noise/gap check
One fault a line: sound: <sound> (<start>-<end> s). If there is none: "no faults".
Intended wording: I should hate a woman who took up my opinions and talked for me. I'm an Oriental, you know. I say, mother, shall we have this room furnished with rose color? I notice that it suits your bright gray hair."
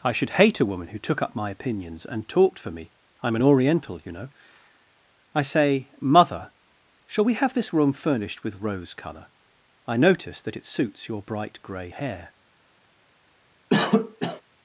sound: cough (13.7-14.4 s)